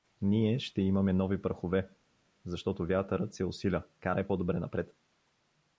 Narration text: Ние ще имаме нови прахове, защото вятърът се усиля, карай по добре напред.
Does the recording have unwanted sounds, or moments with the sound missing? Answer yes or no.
no